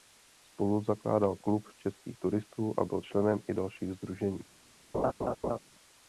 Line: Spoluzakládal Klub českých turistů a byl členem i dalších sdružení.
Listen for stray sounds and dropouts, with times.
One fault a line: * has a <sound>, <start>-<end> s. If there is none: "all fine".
* has a laugh, 4.9-5.6 s